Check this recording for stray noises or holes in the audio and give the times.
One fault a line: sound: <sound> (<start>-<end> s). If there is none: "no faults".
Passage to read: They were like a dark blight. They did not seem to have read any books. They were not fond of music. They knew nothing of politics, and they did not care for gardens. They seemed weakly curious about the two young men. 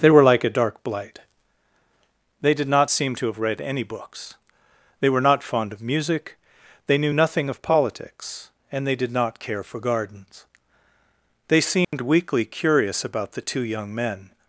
sound: dropout (11.8-11.9 s)